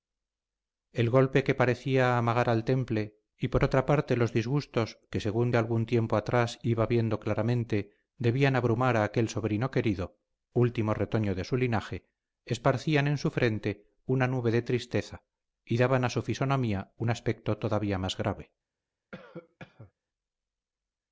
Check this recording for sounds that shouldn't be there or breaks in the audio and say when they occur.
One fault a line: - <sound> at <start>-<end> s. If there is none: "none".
- cough at 19.1-19.9 s